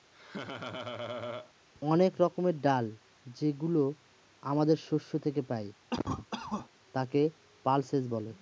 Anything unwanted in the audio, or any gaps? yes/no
yes